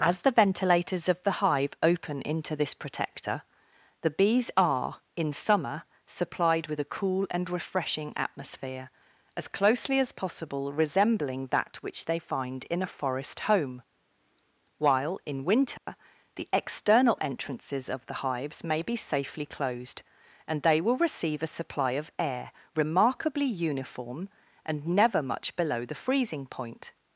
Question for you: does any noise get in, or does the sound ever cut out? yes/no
yes